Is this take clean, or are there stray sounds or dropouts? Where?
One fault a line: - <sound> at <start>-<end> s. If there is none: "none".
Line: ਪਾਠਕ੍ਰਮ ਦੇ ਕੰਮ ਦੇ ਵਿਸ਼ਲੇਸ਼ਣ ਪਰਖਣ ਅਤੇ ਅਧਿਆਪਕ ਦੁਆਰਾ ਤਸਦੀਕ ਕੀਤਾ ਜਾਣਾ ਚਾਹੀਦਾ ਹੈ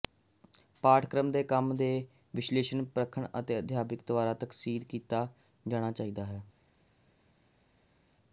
none